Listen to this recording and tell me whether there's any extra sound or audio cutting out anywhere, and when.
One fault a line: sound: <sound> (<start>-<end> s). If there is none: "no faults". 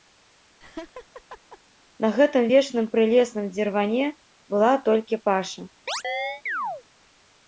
sound: laugh (0.6-1.6 s)
sound: chirp (5.9-6.8 s)